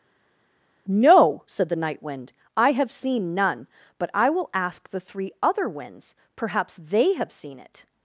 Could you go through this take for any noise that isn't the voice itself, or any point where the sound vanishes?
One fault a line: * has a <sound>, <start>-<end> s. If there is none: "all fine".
all fine